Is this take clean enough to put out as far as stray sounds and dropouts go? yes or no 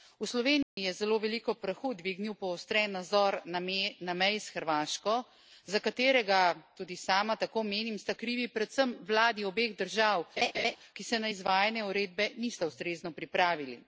no